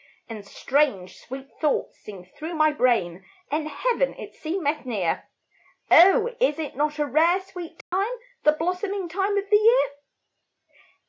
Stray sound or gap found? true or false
true